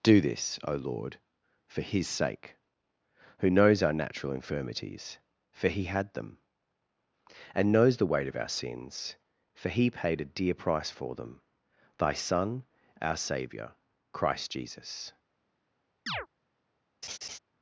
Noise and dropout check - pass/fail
fail